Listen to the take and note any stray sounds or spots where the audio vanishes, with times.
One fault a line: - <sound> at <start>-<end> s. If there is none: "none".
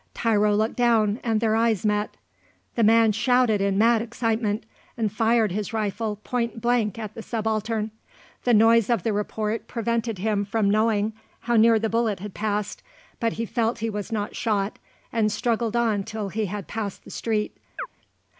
- chirp at 17.8-17.9 s